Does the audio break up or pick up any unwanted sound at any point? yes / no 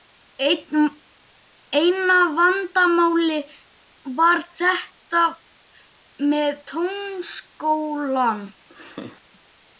yes